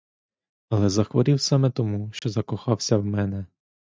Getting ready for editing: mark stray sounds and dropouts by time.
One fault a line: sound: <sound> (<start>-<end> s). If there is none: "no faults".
sound: dropout (2.2-2.2 s)